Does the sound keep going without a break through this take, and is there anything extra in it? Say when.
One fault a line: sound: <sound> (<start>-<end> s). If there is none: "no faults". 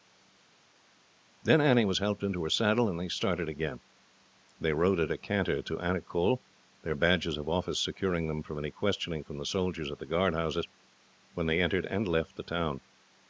no faults